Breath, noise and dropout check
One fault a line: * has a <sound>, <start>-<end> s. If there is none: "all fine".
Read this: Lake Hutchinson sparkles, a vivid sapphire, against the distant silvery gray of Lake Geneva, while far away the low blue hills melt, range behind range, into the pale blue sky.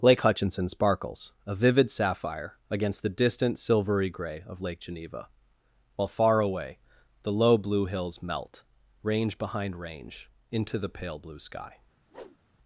* has a whoosh, 12.1-12.4 s